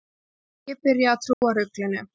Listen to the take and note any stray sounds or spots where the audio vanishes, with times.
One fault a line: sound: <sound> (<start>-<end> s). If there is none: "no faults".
sound: dropout (1.3-1.4 s)